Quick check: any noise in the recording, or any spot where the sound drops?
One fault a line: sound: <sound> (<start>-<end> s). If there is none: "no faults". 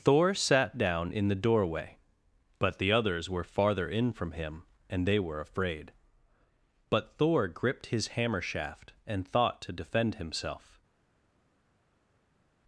no faults